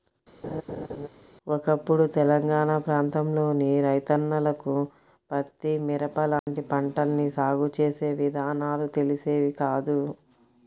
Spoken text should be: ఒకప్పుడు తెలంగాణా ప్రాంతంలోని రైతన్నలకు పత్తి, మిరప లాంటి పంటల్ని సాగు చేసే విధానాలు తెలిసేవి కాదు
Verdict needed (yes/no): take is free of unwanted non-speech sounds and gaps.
no